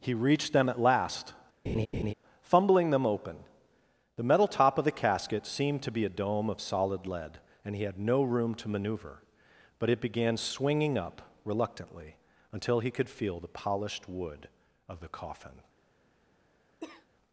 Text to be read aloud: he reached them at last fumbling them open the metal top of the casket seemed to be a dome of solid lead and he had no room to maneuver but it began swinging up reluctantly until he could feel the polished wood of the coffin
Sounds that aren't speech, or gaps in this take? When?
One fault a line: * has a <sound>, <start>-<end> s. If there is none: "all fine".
* has a laugh, 1.7-2.1 s
* has a cough, 16.8-17.1 s